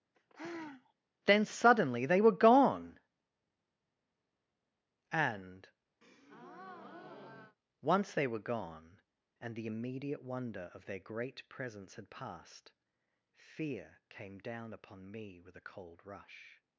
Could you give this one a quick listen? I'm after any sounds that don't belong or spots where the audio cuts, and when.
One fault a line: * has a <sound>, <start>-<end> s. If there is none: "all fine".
* has a sigh, 0.1-0.9 s
* has a breath, 6.0-7.6 s